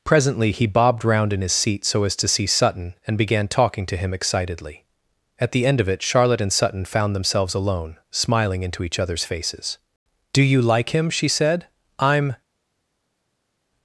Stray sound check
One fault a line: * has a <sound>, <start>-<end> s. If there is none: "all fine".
all fine